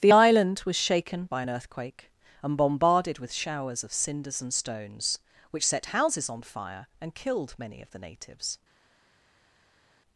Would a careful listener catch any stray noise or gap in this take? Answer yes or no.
no